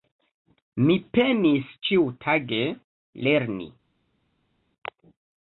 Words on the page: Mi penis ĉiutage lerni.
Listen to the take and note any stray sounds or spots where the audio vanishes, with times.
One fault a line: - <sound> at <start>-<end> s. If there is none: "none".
none